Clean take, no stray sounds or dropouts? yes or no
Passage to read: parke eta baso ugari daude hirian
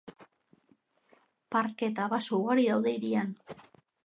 yes